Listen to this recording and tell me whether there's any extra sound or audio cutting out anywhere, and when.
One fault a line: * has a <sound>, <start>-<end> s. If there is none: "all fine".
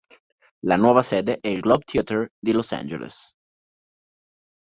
all fine